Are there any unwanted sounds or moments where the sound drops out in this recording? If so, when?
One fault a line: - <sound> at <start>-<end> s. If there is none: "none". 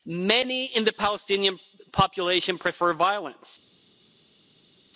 none